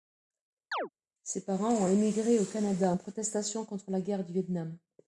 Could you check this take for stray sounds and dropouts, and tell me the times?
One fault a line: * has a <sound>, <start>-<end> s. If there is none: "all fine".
* has a chirp, 0.7-0.9 s